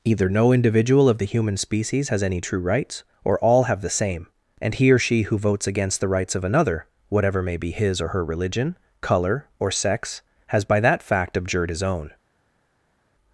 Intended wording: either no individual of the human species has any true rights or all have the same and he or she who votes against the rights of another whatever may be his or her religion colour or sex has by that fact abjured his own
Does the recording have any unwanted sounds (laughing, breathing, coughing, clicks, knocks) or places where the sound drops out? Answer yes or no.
no